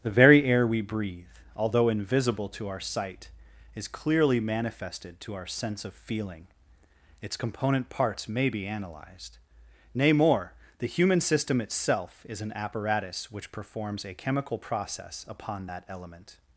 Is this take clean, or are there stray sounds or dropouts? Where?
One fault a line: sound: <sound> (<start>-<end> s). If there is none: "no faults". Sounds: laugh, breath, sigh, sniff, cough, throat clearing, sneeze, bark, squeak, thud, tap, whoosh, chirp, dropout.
no faults